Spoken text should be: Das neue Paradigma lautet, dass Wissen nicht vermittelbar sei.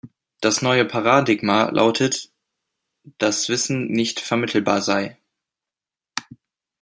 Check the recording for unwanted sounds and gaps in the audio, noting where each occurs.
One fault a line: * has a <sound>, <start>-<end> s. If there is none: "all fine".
all fine